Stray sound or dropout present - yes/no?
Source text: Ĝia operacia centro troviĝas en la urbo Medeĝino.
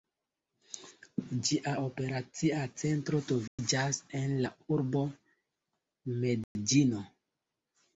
yes